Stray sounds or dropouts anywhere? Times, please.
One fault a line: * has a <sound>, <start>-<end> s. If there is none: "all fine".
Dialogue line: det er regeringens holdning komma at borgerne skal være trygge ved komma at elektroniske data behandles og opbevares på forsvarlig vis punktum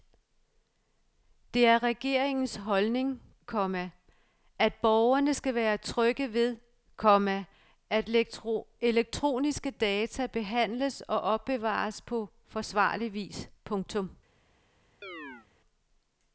* has a chirp, 15.0-15.5 s